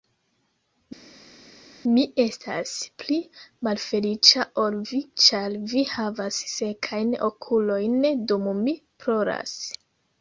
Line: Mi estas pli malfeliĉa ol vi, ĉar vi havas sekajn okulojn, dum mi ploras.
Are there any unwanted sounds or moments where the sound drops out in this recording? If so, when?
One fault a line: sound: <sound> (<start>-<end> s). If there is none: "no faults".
no faults